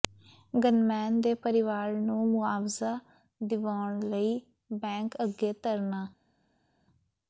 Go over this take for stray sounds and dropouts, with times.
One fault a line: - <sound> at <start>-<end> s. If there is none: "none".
none